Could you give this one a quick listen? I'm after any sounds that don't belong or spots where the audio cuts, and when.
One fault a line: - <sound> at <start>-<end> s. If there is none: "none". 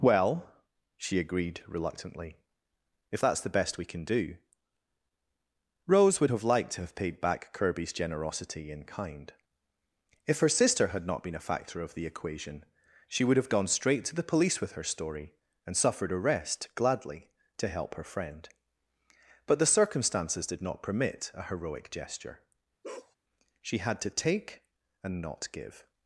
- bark at 22.8-23.2 s